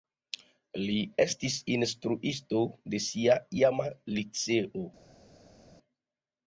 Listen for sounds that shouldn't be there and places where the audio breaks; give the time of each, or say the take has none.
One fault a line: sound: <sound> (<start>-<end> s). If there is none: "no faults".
no faults